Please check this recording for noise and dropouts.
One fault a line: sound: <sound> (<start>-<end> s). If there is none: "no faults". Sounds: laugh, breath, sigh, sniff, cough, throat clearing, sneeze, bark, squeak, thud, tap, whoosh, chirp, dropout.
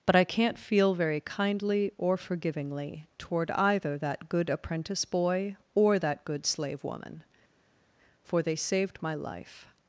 no faults